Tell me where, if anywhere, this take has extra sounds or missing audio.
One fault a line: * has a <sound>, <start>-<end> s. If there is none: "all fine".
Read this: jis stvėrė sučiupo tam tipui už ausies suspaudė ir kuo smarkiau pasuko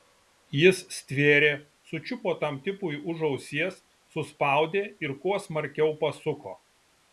all fine